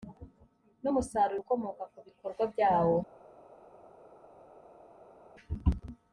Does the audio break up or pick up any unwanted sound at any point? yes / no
no